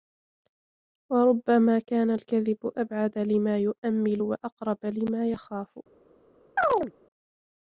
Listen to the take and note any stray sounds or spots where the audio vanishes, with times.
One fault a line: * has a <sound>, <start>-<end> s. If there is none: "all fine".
* has a chirp, 6.6-6.9 s